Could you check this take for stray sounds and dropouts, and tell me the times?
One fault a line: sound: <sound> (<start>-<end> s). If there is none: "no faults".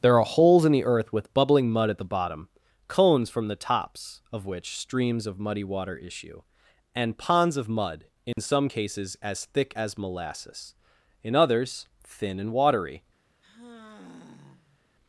sound: dropout (8.3-8.4 s)
sound: sigh (13.4-14.8 s)